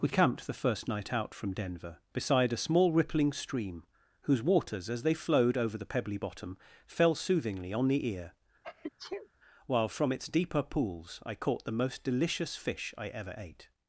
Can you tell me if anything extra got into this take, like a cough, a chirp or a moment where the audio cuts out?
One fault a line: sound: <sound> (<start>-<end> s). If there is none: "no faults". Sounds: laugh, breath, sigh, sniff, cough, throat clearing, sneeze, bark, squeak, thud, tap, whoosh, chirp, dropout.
sound: sneeze (8.6-9.3 s)